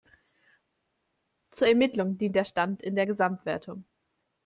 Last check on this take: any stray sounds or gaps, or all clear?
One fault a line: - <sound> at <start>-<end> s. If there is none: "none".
none